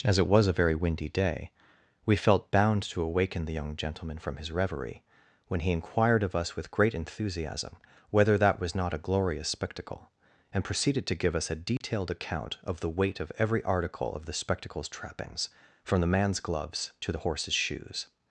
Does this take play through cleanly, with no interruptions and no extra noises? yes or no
no